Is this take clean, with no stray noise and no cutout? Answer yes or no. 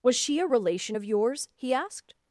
yes